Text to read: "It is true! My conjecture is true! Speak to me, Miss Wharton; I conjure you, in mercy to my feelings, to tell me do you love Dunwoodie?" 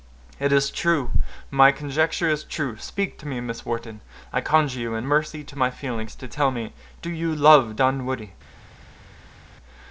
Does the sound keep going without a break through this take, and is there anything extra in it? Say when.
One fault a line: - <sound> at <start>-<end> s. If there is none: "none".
none